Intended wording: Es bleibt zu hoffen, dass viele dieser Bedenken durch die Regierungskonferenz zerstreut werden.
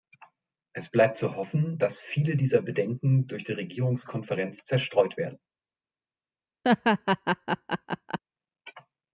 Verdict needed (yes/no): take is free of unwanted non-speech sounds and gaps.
no